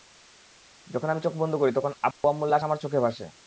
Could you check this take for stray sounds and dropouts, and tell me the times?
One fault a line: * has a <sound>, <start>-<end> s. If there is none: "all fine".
* has a dropout, 2.1-2.2 s